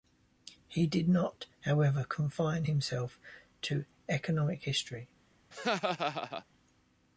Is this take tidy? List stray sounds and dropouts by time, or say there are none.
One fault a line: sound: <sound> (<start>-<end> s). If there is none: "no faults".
sound: laugh (5.5-6.4 s)